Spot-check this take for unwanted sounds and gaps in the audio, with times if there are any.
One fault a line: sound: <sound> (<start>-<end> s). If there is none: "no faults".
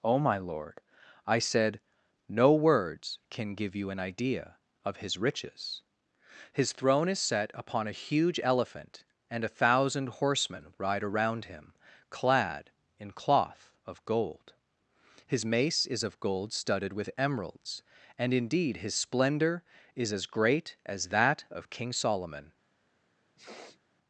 sound: sniff (23.4-23.8 s)